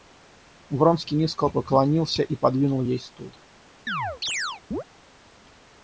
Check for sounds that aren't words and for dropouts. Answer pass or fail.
fail